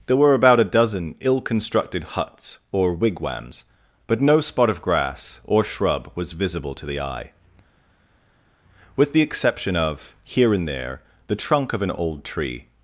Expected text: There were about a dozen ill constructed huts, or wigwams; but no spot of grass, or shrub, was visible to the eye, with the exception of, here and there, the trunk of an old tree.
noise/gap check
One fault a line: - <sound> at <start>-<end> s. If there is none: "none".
none